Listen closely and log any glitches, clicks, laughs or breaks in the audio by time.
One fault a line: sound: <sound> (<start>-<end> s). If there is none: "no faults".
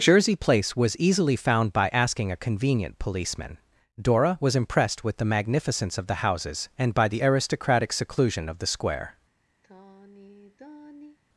sound: sigh (9.6-11.2 s)